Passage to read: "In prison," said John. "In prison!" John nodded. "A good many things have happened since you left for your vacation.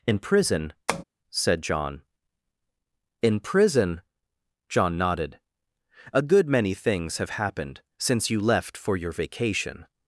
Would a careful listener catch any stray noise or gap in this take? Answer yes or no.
yes